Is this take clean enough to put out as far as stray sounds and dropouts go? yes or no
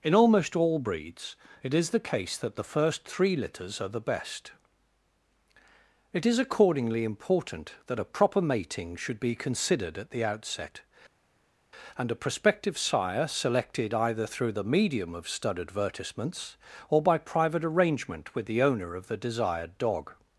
yes